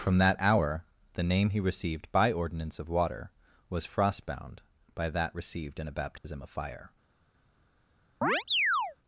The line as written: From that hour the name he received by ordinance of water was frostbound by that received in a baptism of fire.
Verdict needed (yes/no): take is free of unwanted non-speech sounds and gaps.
no